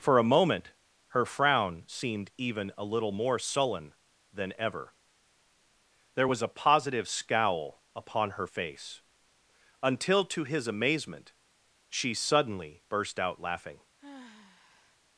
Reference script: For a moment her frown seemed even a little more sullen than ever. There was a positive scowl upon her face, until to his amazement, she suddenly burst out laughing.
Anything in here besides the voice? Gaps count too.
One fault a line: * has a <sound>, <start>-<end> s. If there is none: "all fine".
* has a sigh, 14.0-15.0 s